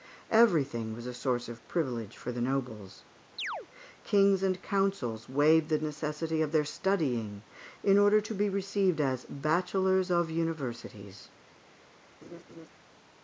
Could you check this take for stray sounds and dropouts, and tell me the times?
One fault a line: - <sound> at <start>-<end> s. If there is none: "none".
- chirp at 3.4-3.7 s
- laugh at 12.2-12.7 s